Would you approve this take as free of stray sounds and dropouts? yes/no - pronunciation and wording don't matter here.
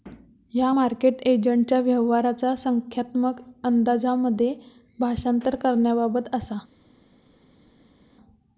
yes